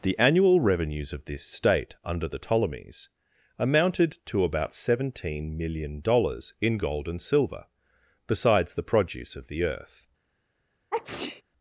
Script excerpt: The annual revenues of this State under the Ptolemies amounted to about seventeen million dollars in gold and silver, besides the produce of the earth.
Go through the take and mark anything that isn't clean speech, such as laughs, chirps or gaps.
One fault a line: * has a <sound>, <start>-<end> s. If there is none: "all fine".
* has a sneeze, 10.9-11.4 s